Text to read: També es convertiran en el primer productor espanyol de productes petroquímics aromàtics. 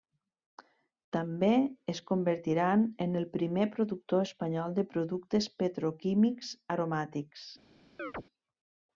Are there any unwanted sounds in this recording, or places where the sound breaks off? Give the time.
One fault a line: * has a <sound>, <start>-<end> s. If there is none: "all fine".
* has a chirp, 8.0-8.2 s